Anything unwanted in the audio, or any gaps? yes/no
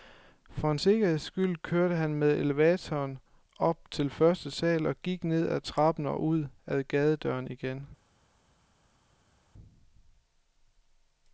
no